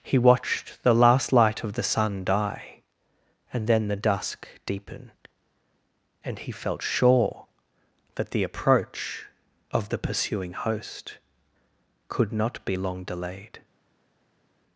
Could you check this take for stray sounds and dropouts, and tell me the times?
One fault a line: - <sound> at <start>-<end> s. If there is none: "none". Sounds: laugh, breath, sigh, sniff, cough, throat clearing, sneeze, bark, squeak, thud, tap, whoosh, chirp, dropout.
none